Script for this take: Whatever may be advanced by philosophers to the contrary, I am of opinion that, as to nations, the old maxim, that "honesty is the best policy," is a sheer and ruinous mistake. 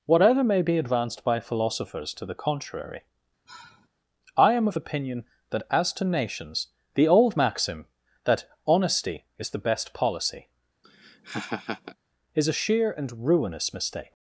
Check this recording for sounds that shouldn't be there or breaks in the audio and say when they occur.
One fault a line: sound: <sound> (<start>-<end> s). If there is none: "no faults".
sound: sigh (3.5-3.9 s)
sound: laugh (10.8-12.0 s)